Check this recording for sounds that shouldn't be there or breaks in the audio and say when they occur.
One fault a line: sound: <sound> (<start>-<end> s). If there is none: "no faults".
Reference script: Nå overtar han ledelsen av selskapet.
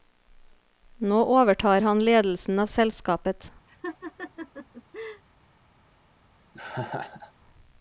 sound: laugh (3.7-5.2 s)
sound: laugh (6.5-7.3 s)